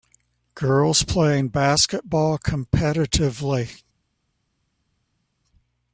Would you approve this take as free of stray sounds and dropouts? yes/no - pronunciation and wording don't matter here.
yes